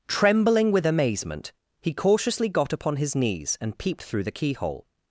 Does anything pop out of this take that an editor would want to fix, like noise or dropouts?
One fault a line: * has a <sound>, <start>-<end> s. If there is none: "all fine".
all fine